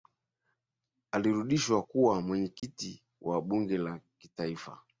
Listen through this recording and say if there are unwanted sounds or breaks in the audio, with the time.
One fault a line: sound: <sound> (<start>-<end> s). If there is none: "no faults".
sound: dropout (2.6-2.6 s)